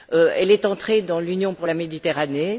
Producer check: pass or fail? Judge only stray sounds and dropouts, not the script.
pass